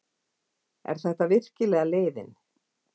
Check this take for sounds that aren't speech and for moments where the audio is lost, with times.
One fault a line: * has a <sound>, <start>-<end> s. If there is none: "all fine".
all fine